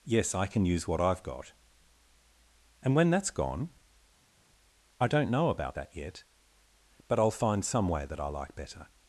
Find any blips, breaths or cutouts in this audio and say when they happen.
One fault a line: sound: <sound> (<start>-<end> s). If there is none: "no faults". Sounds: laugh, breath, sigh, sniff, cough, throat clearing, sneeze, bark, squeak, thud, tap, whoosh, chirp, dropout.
no faults